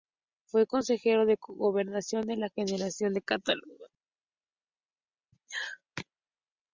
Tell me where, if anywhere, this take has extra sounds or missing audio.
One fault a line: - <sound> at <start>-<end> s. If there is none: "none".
none